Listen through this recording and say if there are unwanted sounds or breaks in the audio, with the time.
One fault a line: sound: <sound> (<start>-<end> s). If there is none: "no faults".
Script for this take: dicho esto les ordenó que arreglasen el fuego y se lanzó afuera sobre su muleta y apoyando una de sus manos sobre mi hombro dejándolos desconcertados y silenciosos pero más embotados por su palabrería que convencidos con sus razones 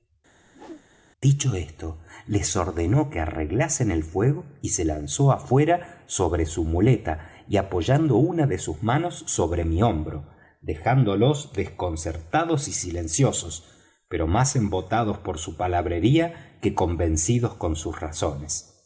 sound: whoosh (0.5-0.9 s)